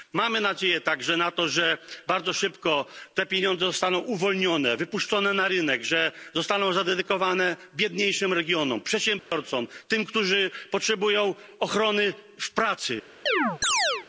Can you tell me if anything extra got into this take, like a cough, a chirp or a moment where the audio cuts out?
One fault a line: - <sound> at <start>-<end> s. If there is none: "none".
- dropout at 9.2-9.3 s
- chirp at 13.3-14.1 s